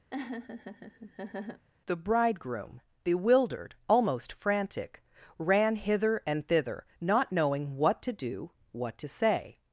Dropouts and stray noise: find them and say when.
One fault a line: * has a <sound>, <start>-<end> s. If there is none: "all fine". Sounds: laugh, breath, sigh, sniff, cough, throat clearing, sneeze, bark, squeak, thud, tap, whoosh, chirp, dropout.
* has a laugh, 0.1-1.7 s